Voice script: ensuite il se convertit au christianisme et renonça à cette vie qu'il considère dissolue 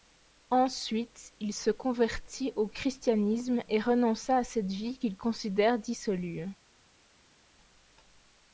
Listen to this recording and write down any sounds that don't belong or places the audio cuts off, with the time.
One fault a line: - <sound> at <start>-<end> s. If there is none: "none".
none